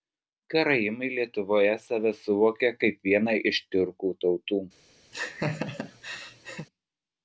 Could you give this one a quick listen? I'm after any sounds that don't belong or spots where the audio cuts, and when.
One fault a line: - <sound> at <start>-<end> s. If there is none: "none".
- laugh at 5.1-6.7 s